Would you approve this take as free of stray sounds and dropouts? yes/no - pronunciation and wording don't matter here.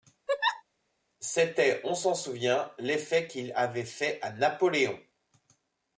no